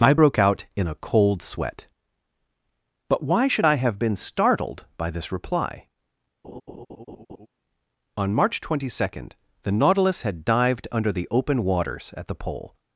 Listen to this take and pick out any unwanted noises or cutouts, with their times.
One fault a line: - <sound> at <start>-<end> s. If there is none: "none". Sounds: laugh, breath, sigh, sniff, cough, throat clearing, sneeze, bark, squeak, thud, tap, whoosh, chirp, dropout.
- laugh at 6.4-7.5 s